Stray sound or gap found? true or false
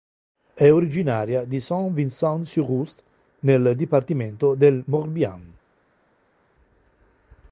false